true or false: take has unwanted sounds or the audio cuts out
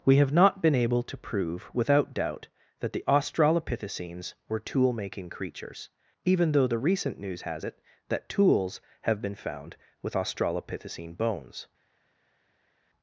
false